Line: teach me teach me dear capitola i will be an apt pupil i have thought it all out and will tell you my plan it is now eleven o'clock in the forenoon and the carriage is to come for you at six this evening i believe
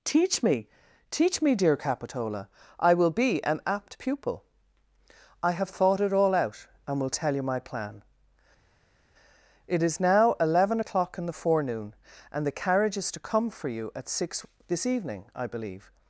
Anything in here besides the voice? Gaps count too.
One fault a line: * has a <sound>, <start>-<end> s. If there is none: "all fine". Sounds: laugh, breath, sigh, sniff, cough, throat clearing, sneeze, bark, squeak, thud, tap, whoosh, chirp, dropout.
all fine